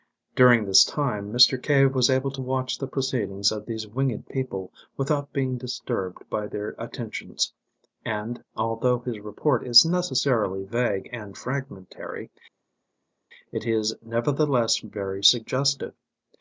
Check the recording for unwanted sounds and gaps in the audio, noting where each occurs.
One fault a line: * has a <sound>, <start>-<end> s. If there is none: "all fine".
all fine